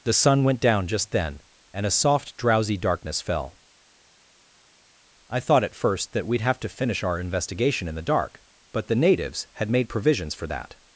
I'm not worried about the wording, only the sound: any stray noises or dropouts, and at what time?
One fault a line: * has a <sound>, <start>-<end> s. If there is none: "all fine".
all fine